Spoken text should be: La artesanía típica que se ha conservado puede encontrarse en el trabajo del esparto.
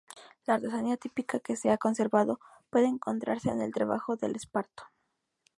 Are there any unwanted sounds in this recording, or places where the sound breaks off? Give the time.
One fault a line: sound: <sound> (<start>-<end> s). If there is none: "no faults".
no faults